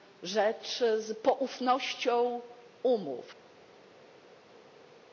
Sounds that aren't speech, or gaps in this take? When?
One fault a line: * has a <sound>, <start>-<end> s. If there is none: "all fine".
all fine